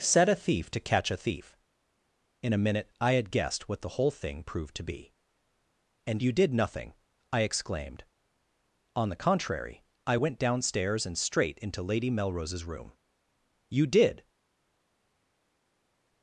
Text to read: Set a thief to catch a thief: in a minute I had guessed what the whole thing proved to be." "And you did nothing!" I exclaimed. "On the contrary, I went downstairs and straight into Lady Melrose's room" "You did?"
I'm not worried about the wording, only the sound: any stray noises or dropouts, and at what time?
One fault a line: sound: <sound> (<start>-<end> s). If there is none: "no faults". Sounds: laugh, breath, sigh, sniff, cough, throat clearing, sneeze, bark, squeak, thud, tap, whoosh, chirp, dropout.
no faults